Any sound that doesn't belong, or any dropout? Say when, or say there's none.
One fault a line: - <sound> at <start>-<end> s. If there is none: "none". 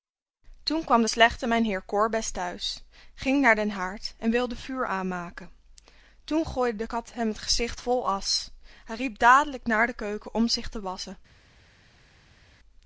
none